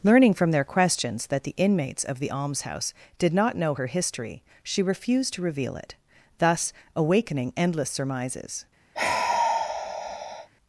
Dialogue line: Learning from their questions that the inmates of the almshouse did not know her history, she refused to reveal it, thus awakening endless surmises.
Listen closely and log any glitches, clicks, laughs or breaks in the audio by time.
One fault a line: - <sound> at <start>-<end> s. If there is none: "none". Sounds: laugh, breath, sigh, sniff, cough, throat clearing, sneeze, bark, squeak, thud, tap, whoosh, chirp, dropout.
- sigh at 8.9-10.5 s